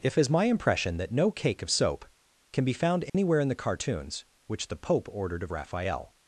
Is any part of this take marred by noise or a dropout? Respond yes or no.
yes